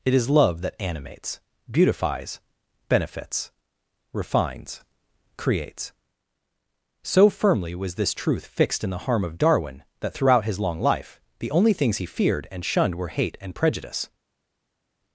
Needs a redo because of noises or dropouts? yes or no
no